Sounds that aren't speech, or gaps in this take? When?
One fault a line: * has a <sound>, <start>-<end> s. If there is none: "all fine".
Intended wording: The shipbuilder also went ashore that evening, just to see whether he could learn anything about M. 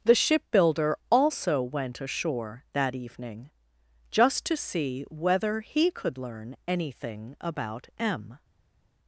all fine